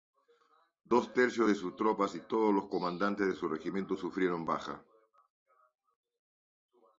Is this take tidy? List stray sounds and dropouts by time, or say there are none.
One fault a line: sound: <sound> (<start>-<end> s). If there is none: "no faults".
no faults